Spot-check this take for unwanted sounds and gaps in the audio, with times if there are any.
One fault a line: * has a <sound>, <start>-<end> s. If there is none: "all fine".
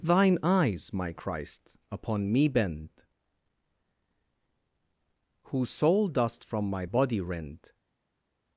all fine